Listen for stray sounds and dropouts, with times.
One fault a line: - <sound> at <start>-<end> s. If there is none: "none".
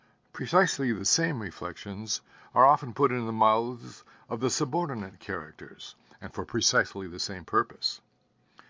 none